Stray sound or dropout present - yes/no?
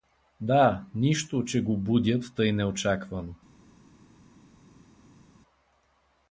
no